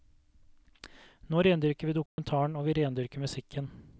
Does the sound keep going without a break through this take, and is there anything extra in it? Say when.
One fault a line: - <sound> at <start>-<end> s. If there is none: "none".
- dropout at 2.1-2.2 s